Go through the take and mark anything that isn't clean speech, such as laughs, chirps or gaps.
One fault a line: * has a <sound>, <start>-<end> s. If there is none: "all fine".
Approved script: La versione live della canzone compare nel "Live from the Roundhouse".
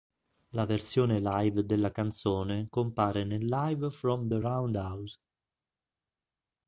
all fine